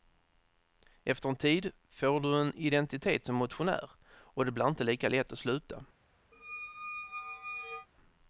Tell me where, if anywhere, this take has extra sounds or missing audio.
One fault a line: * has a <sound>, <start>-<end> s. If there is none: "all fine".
* has a squeak, 6.3-7.9 s